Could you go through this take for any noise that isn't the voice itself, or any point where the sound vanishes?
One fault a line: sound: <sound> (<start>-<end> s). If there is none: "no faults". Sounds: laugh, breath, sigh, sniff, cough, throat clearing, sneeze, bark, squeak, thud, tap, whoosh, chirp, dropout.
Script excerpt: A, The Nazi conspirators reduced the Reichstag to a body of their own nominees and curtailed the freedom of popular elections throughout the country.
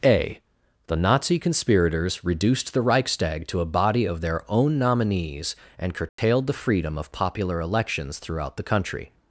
sound: dropout (6.1-6.2 s)